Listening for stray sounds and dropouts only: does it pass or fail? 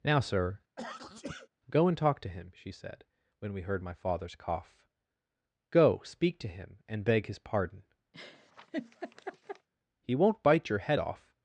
fail